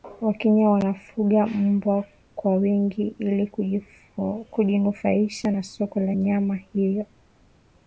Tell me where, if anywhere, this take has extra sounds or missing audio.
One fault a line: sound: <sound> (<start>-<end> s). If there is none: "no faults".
no faults